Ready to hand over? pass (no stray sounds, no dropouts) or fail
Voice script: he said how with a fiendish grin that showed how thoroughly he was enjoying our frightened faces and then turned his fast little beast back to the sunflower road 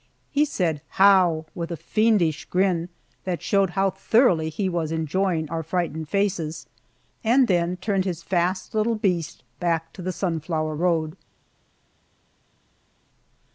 pass